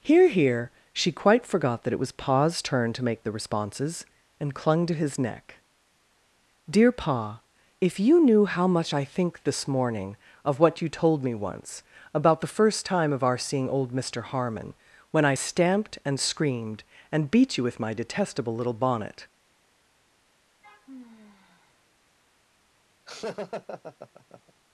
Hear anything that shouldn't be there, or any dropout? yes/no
yes